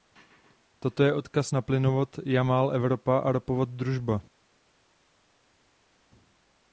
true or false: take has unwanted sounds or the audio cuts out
false